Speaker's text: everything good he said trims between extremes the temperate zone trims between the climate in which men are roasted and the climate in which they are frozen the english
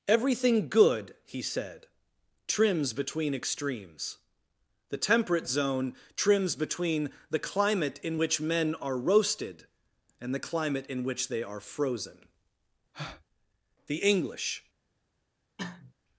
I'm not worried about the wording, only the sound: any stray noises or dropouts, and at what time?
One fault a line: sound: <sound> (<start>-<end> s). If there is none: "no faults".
sound: breath (12.9-13.2 s)
sound: cough (15.6-15.9 s)